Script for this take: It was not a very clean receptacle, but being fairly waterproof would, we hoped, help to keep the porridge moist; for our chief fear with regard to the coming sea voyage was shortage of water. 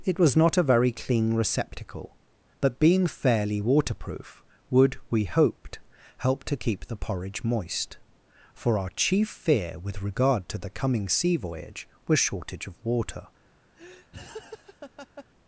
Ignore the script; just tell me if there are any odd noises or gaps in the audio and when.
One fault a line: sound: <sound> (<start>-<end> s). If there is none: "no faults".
sound: laugh (13.8-15.3 s)